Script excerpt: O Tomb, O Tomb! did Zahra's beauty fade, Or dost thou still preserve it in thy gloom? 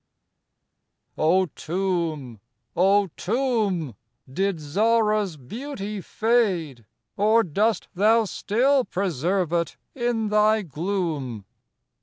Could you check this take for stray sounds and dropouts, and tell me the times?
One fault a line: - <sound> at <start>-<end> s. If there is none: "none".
none